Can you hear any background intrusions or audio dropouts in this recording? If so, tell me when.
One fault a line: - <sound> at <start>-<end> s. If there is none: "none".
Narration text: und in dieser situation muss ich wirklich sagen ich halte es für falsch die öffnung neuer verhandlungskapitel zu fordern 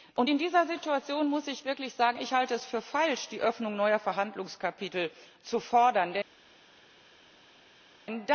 none